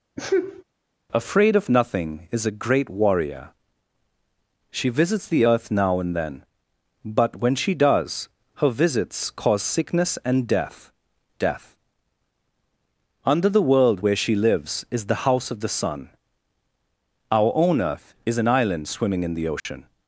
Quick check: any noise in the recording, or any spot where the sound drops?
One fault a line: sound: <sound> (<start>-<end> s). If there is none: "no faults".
sound: sneeze (0.2-0.6 s)
sound: dropout (19.6-19.7 s)